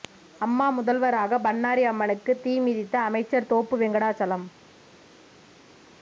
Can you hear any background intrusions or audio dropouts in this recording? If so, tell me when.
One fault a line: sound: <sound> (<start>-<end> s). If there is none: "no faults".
no faults